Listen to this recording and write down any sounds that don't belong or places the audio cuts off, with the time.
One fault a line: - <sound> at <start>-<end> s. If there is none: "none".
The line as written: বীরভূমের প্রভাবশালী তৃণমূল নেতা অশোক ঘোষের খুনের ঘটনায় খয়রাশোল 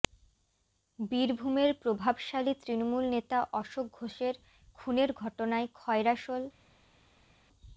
none